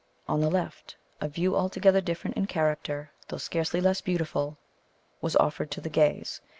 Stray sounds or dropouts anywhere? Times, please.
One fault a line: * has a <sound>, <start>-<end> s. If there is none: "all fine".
all fine